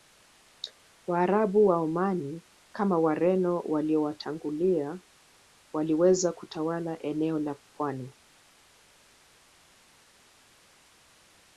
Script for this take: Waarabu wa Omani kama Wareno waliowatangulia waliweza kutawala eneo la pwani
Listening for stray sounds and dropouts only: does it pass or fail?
pass